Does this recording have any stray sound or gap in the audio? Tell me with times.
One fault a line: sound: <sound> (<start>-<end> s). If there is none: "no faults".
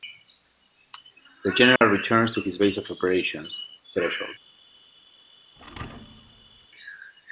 sound: dropout (1.8-1.8 s)
sound: thud (5.6-6.7 s)